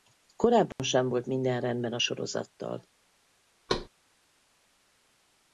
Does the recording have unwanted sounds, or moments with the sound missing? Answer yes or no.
yes